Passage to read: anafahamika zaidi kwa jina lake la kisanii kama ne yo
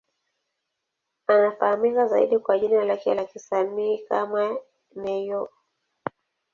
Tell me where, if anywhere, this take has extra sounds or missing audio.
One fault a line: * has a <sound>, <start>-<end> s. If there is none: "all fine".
all fine